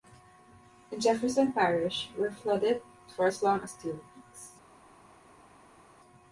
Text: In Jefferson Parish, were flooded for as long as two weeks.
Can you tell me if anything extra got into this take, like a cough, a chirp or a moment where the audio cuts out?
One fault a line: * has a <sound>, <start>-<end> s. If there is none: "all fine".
all fine